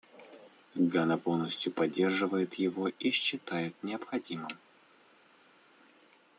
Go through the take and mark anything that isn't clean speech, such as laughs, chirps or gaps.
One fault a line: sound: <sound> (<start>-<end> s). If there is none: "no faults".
no faults